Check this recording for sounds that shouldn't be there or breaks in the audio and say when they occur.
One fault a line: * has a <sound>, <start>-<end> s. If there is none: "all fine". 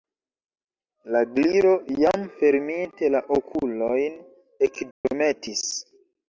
* has a dropout, 4.9-5.0 s